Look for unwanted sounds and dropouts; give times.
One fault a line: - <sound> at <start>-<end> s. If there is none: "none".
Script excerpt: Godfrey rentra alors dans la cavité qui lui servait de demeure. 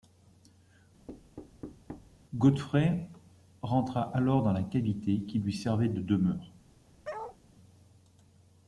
- thud at 1.1-2.2 s
- bark at 7.0-7.4 s